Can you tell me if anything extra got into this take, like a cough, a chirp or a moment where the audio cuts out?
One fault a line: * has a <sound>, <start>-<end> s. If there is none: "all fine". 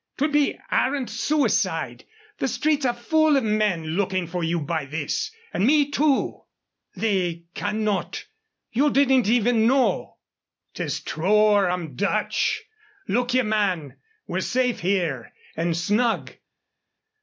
all fine